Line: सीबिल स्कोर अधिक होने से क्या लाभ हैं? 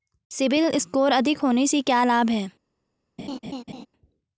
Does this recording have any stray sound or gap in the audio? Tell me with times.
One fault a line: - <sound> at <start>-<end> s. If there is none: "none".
- laugh at 3.2-3.9 s